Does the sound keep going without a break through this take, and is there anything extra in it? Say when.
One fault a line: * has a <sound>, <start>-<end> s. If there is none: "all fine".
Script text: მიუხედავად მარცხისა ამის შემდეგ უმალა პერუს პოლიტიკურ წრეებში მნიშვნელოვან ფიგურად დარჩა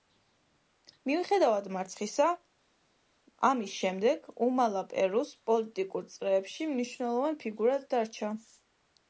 all fine